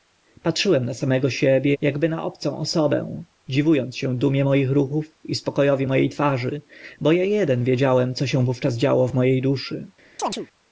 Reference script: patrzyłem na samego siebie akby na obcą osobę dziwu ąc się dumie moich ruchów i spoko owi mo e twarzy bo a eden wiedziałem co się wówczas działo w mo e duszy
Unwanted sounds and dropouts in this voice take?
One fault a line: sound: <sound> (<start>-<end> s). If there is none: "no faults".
sound: chirp (10.2-10.5 s)